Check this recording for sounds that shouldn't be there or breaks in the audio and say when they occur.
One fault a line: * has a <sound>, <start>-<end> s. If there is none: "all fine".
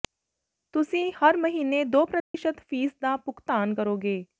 * has a dropout, 2.2-2.3 s